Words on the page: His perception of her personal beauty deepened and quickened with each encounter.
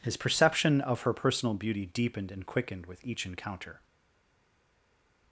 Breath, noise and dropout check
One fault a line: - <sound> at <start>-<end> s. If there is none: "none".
none